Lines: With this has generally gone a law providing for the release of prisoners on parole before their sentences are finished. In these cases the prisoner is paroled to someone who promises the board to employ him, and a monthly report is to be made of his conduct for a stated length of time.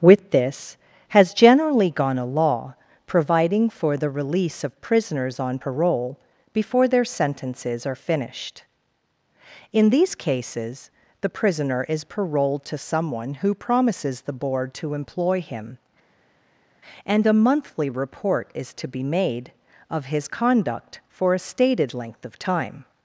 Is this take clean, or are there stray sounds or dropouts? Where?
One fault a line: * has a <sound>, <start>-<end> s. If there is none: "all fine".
all fine